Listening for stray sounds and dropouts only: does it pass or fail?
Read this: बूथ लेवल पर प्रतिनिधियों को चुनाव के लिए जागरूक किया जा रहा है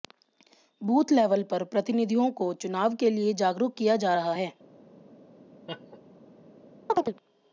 fail